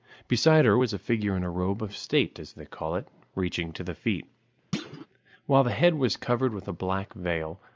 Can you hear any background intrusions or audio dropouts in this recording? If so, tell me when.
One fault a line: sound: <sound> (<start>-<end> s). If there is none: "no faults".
sound: thud (4.7-5.1 s)